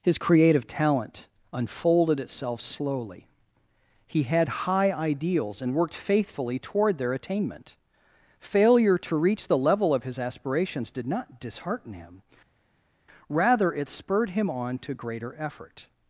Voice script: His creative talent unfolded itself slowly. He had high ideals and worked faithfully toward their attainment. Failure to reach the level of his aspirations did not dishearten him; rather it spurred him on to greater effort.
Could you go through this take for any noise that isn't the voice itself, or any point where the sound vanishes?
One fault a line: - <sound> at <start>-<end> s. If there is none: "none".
none